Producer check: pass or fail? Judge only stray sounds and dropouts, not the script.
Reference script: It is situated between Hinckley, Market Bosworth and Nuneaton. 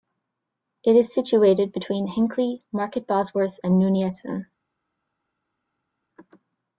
pass